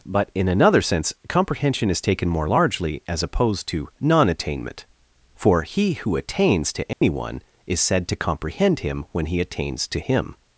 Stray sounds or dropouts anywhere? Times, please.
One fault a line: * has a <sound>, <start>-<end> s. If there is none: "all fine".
* has a dropout, 6.9-7.0 s